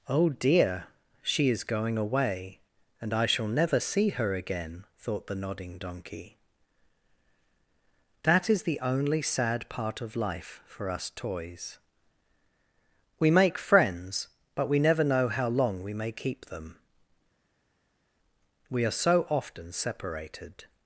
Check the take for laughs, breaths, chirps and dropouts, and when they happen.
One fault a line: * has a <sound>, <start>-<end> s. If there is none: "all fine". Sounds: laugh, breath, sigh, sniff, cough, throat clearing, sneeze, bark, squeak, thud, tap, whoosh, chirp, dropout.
all fine